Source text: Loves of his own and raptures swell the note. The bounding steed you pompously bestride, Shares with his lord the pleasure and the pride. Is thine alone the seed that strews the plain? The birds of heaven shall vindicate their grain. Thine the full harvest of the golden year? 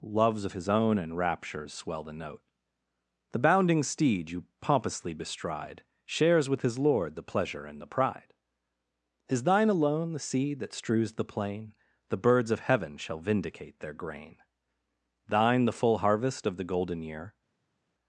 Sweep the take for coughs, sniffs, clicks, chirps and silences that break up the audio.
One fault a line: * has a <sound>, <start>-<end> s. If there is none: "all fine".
all fine